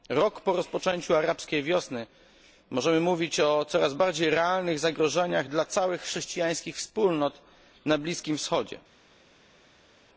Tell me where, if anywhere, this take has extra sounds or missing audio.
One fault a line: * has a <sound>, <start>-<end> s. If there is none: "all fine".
all fine